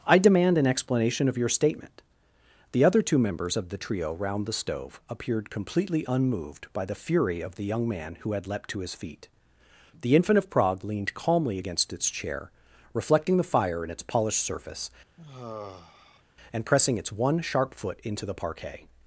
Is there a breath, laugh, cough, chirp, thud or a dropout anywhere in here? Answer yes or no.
yes